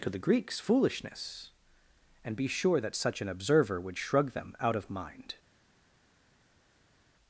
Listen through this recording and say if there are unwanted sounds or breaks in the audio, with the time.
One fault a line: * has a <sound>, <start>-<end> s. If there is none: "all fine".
all fine